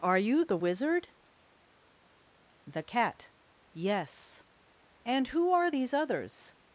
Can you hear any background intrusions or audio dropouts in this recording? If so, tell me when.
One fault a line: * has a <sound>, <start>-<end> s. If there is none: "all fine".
all fine